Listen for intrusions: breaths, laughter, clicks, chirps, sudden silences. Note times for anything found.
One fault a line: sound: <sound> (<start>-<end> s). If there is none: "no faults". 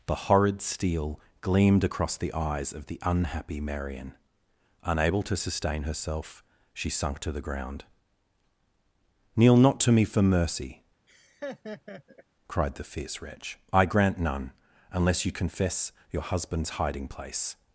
sound: laugh (11.1-12.2 s)